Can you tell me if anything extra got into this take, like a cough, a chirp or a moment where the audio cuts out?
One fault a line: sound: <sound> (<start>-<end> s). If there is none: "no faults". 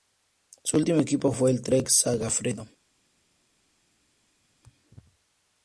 no faults